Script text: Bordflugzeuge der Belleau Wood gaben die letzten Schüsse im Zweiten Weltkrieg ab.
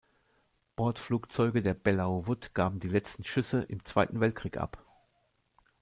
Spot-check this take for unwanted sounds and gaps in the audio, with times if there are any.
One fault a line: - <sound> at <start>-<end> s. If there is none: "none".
none